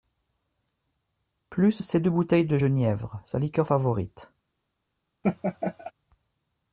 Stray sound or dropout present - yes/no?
yes